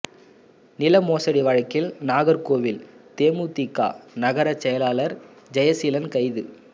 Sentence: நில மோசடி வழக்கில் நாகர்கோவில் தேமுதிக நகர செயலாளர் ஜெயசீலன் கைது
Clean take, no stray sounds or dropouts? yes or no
yes